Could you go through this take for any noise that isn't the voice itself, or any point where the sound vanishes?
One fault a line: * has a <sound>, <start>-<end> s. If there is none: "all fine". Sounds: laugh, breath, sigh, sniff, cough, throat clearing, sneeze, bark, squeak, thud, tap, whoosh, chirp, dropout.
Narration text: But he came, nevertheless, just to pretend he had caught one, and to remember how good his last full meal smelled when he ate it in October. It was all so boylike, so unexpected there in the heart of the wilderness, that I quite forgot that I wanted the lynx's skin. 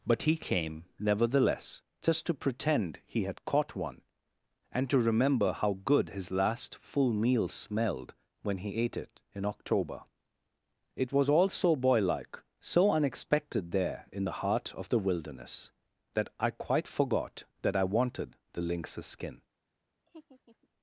* has a laugh, 20.1-20.7 s